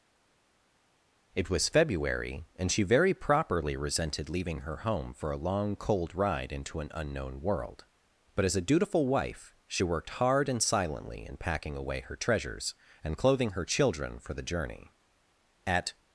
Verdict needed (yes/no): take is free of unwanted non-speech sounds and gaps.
yes